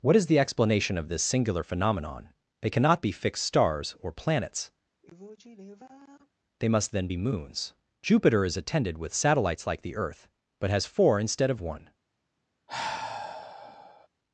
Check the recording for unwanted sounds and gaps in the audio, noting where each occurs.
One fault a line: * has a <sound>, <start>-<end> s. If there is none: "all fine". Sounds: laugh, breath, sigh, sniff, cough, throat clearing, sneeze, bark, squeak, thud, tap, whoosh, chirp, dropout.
* has a sigh, 5.0-6.3 s
* has a sigh, 12.7-14.1 s